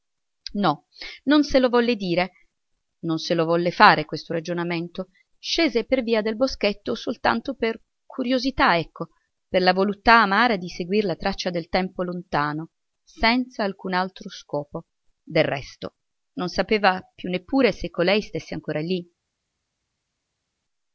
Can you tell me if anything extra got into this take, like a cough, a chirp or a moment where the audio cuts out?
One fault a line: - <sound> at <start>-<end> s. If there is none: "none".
none